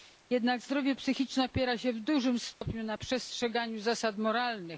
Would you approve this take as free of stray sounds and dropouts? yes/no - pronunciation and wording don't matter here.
no